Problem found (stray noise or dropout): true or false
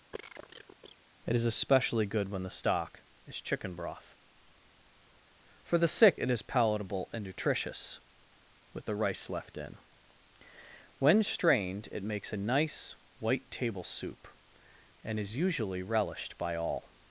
true